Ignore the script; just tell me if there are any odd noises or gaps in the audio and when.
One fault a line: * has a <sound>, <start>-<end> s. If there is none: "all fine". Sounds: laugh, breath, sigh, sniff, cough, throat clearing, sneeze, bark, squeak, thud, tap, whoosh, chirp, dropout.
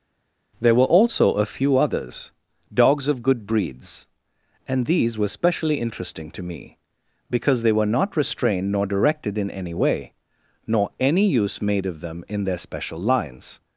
all fine